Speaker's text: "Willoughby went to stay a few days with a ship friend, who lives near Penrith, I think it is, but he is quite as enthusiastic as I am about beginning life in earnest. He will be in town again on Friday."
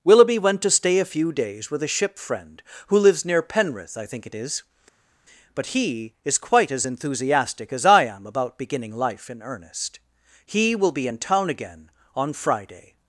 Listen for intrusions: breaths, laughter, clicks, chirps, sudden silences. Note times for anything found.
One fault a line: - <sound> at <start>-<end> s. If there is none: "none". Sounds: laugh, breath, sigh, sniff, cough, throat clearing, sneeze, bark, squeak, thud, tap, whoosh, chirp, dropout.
none